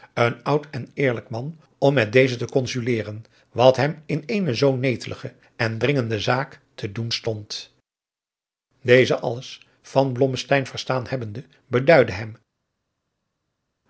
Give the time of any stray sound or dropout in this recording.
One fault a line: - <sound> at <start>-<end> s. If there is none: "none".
none